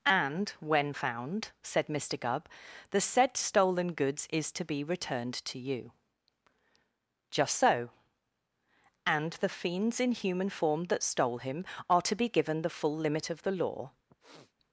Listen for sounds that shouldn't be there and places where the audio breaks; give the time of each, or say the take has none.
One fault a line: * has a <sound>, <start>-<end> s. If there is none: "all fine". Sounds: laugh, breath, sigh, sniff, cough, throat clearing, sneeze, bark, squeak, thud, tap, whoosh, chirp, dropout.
* has a sniff, 14.1-14.5 s